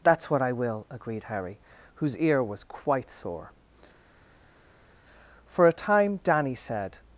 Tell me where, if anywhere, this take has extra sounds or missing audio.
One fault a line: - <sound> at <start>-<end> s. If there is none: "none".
none